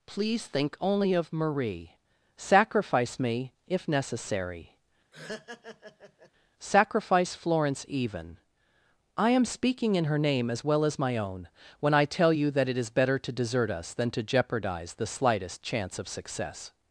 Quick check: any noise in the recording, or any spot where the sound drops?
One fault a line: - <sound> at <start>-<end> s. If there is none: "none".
- laugh at 5.1-6.3 s